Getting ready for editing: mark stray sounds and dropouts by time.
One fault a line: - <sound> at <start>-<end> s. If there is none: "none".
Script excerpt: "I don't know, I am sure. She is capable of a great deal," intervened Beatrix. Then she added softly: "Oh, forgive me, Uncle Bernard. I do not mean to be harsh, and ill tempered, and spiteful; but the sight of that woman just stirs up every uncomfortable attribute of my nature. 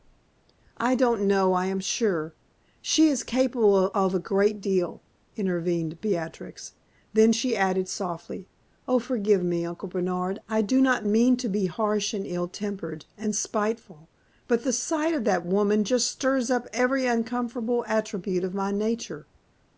none